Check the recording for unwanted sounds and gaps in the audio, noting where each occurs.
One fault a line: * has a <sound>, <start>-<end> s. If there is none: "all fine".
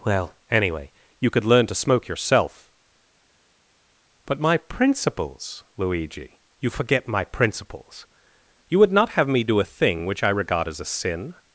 all fine